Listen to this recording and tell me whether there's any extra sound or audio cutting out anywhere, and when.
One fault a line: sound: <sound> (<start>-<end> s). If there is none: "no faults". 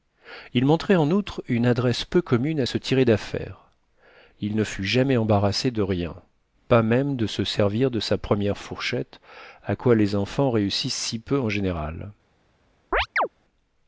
sound: chirp (12.9-13.3 s)